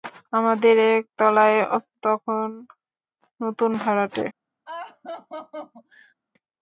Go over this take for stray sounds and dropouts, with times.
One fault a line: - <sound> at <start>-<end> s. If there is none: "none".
- laugh at 4.7-6.1 s